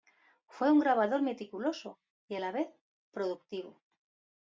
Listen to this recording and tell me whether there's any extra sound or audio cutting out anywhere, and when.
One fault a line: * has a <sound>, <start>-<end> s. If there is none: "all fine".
all fine